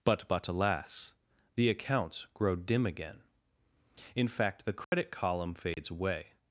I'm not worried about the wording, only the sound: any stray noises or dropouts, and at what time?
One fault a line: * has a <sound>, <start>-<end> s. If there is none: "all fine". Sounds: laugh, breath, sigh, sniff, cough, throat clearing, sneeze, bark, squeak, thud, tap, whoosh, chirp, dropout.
* has a dropout, 4.8-4.9 s
* has a dropout, 5.7-5.8 s